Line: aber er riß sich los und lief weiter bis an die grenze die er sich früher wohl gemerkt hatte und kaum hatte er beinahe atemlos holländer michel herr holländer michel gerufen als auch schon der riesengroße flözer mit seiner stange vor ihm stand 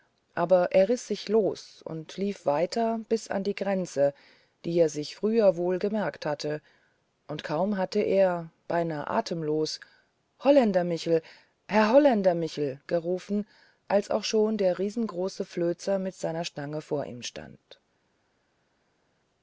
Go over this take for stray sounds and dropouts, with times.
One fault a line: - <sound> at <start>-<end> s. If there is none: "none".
none